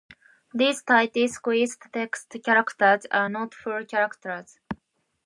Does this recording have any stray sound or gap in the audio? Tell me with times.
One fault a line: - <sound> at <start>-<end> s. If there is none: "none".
none